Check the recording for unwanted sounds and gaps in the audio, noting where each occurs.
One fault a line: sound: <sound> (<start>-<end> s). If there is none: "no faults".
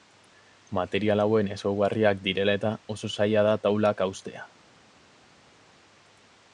no faults